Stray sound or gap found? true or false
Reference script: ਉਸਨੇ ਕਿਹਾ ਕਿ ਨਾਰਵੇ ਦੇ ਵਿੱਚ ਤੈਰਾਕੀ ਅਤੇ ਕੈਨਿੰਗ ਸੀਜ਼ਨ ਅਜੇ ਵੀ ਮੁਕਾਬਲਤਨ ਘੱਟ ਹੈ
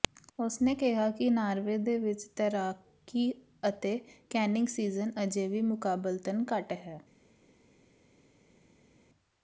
false